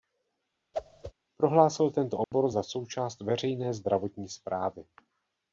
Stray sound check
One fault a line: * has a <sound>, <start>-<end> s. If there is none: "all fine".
* has a whoosh, 0.7-1.1 s
* has a dropout, 2.2-2.3 s